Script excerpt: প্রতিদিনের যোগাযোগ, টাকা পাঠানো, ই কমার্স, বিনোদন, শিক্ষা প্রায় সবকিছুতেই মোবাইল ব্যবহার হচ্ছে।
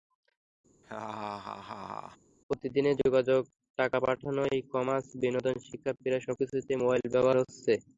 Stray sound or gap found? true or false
true